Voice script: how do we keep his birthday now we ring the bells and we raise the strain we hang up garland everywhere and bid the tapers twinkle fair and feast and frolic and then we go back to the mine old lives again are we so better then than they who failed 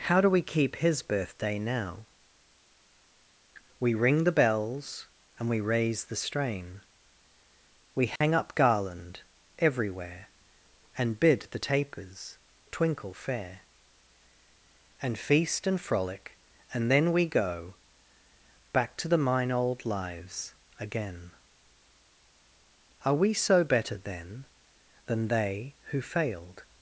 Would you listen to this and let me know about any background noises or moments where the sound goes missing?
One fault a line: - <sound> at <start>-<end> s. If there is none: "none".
- dropout at 8.2-8.2 s